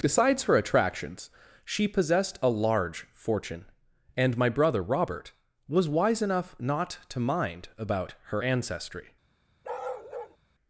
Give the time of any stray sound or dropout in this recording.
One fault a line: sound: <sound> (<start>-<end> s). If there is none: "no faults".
sound: bark (9.6-10.4 s)